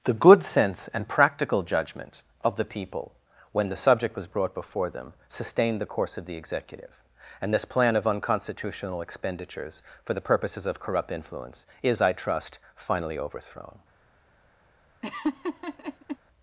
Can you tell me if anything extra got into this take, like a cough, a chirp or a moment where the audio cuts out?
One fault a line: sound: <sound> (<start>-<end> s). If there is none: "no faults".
sound: laugh (15.0-16.2 s)